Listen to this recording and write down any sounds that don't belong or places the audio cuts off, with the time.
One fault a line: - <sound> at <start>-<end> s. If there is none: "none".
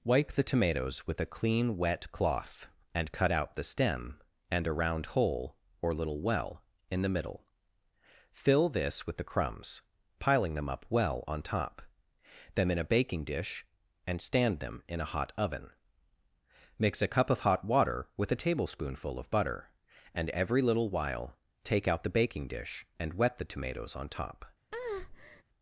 - breath at 24.7-25.4 s